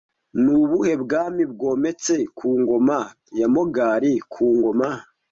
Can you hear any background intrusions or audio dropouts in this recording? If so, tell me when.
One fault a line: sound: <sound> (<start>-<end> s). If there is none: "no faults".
no faults